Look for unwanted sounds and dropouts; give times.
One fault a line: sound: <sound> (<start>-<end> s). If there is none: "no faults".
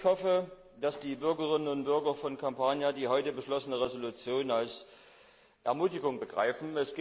no faults